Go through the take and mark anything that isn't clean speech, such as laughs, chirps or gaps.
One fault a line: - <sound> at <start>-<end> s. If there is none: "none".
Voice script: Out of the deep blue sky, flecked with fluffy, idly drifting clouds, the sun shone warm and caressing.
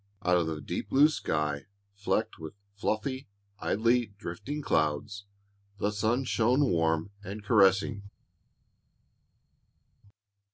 none